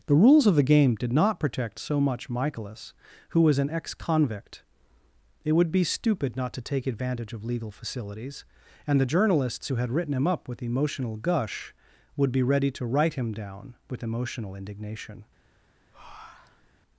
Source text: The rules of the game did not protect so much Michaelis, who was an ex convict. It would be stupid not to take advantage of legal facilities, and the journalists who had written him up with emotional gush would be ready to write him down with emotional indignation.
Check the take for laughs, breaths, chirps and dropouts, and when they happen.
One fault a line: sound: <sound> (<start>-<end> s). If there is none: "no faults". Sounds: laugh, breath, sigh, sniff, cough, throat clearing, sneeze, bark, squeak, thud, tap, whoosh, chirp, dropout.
sound: breath (15.9-16.7 s)